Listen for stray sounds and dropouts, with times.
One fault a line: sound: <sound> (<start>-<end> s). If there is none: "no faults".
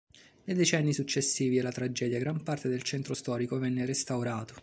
no faults